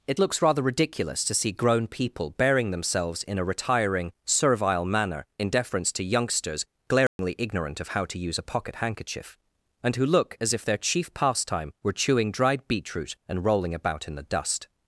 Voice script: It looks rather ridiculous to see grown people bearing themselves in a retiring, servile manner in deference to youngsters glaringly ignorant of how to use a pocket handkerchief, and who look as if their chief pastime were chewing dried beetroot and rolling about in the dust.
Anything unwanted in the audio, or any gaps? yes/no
yes